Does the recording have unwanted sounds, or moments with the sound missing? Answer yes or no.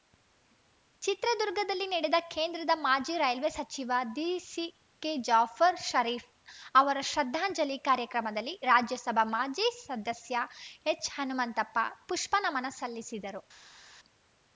no